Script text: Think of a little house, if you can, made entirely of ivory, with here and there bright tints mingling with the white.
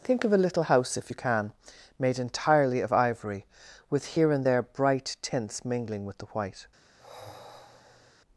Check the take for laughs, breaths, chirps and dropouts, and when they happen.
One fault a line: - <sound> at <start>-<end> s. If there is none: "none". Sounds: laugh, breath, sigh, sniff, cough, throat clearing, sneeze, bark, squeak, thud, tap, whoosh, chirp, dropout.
- sigh at 7.0-8.1 s